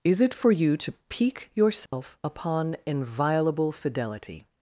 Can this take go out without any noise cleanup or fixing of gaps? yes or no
no